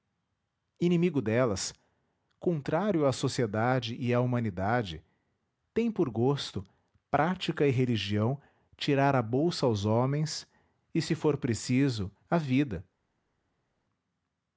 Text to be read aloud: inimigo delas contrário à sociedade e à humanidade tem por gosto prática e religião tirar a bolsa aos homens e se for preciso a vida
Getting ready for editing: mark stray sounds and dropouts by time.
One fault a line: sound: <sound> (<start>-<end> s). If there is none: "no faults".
no faults